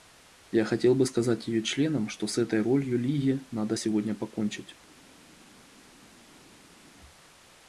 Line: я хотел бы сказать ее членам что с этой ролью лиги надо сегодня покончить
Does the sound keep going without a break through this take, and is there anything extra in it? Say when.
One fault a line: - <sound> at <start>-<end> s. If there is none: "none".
none